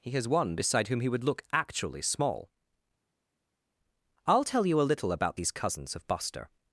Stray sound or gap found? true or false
false